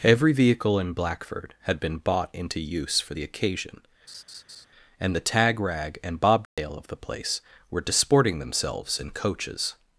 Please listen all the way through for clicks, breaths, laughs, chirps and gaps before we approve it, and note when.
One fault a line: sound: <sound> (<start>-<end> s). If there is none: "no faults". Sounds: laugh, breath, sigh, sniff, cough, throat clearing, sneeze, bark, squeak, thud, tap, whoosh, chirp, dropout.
sound: laugh (4.1-4.7 s)
sound: dropout (6.5-6.6 s)